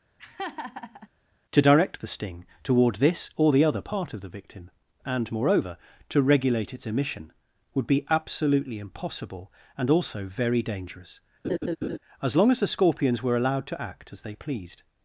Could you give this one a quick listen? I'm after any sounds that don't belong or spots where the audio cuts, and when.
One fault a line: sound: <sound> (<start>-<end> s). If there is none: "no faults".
sound: laugh (0.2-1.1 s)
sound: laugh (11.4-12.0 s)